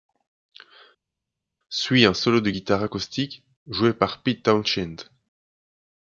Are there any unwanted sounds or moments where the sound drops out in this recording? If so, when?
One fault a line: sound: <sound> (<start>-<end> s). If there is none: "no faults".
no faults